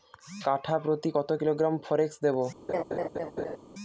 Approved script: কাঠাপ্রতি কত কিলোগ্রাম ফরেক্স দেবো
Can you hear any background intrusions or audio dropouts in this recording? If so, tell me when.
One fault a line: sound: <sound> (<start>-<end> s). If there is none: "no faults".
sound: laugh (2.7-3.6 s)